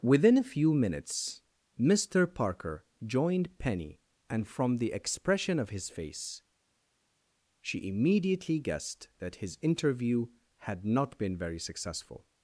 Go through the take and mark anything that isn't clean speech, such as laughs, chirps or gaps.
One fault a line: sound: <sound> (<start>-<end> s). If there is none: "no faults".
no faults